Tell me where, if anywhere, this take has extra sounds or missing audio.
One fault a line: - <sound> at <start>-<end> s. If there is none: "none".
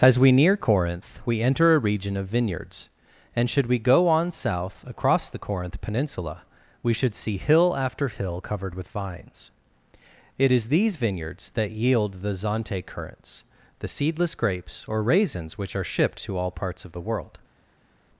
none